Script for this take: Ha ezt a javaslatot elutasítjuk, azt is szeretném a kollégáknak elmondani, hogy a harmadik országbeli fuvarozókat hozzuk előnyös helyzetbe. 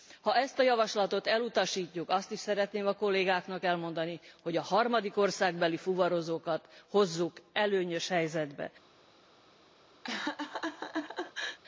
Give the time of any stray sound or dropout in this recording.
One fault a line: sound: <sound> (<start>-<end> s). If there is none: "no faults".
sound: laugh (10.0-11.6 s)